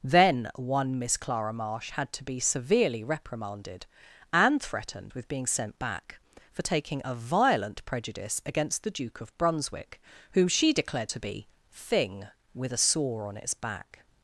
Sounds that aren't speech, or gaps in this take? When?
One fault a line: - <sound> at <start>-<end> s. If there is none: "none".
none